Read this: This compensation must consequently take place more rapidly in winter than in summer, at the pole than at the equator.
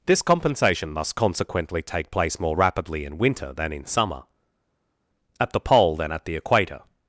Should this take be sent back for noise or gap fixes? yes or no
no